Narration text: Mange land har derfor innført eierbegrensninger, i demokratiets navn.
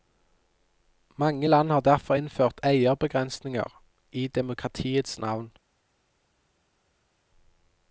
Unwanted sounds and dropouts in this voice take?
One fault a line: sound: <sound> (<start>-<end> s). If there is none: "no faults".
no faults